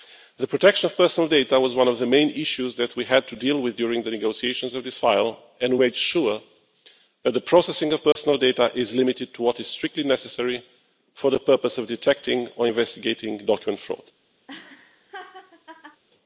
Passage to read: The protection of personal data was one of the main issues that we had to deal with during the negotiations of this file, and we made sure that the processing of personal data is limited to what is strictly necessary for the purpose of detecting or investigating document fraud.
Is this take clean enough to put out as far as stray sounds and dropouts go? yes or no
no